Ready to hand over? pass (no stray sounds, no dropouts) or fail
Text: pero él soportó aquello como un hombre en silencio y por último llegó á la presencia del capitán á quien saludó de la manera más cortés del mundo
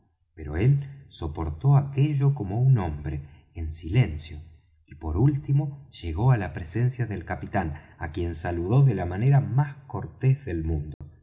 fail